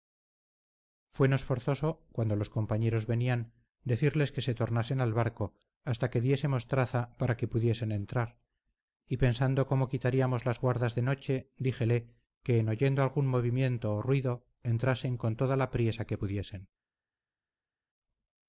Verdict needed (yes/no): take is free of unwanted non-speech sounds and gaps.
yes